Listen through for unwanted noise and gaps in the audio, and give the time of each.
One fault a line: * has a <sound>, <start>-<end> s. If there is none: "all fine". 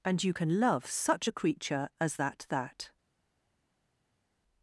all fine